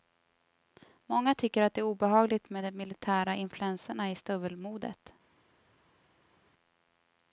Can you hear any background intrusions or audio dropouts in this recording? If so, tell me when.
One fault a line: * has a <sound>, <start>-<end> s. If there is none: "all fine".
all fine